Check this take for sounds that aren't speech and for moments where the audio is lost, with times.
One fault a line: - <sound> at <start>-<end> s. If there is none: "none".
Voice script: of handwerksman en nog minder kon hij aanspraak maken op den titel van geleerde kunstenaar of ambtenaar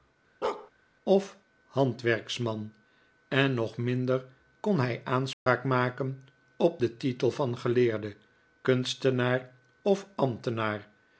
- bark at 0.4-0.7 s
- dropout at 5.3-5.5 s